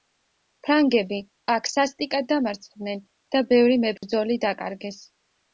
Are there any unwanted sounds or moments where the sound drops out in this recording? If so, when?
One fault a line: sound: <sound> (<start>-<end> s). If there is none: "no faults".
sound: dropout (4.0-4.0 s)